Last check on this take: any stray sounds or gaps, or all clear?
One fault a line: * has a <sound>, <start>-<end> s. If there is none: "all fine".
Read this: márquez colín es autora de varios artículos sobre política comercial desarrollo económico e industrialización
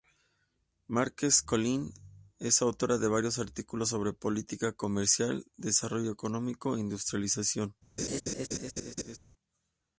* has a laugh, 8.0-9.2 s